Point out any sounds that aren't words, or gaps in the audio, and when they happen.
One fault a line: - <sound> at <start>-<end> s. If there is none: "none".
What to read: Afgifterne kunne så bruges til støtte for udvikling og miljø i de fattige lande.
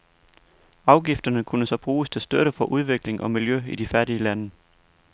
none